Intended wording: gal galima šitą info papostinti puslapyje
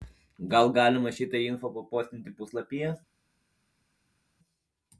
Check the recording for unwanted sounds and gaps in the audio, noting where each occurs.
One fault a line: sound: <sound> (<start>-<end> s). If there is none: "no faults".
no faults